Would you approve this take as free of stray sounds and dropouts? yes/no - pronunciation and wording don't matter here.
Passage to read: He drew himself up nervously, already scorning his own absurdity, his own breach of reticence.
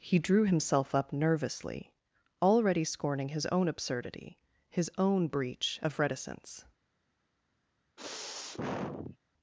no